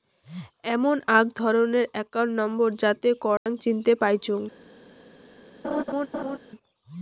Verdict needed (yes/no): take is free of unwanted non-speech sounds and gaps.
no